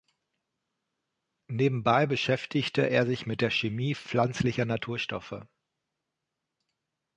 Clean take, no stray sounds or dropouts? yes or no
yes